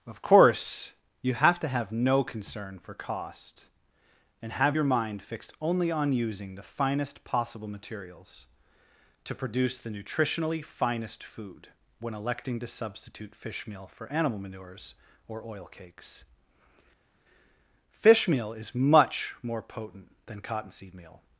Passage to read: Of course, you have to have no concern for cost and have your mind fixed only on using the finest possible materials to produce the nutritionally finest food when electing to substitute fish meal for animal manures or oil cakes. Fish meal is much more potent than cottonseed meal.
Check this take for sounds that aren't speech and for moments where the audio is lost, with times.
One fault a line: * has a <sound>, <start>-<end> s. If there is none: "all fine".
all fine